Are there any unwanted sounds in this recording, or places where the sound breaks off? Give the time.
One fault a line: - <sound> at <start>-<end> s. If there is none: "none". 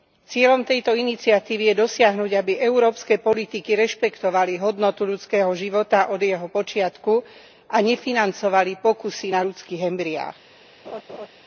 - laugh at 10.8-11.3 s